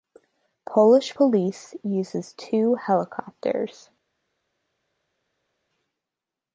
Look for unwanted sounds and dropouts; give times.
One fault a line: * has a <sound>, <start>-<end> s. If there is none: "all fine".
all fine